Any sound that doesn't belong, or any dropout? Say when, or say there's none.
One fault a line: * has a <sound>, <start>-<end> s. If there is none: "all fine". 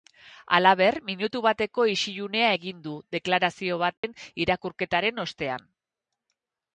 * has a dropout, 4.0-4.0 s